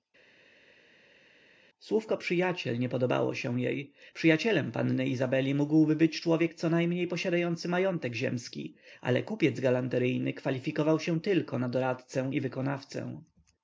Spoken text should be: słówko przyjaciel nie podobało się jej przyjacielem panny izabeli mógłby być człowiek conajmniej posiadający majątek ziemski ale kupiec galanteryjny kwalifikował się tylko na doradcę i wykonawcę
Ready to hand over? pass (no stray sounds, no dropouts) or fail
pass